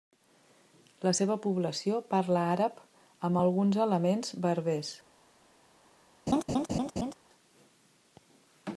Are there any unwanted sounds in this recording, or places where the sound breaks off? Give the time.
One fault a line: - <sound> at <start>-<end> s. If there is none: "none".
- laugh at 6.3-7.1 s